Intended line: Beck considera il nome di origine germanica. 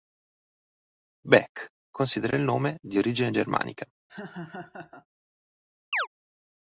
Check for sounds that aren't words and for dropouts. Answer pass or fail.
fail